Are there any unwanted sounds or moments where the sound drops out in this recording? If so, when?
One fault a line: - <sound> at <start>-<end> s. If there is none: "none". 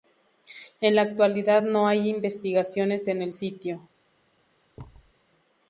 - thud at 4.8-5.1 s